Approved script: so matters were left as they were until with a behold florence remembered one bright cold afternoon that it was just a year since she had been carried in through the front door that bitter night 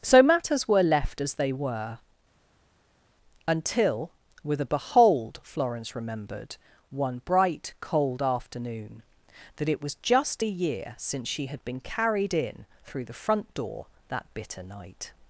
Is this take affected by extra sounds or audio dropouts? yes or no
no